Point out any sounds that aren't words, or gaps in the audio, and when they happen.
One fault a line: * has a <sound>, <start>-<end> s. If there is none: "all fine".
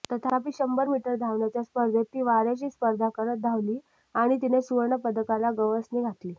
all fine